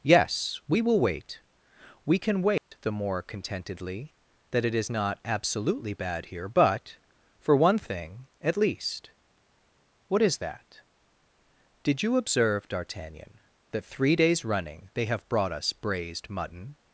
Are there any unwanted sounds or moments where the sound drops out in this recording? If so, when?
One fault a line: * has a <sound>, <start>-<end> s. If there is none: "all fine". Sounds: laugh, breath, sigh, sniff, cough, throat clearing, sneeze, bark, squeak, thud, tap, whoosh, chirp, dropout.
* has a dropout, 2.6-2.7 s